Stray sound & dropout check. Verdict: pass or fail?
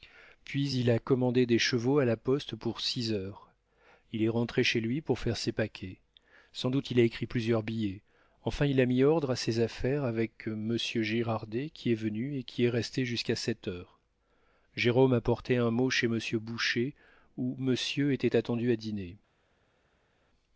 pass